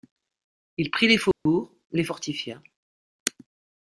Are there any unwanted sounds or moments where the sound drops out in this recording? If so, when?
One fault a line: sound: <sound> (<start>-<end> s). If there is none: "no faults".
sound: dropout (1.3-1.5 s)